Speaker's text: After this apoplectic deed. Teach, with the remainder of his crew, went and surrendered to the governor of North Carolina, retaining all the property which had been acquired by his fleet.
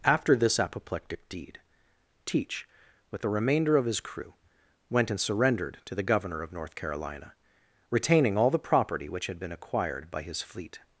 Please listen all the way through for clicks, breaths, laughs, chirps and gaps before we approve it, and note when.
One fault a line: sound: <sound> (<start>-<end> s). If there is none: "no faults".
no faults